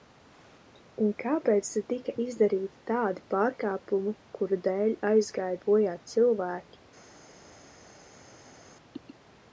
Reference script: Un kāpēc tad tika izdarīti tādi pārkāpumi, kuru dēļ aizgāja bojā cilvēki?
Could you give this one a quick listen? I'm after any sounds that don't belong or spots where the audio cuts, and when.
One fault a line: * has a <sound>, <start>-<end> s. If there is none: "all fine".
all fine